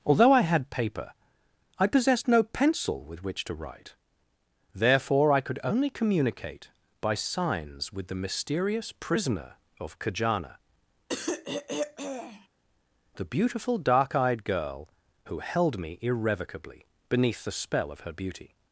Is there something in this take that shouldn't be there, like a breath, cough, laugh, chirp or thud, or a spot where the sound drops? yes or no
yes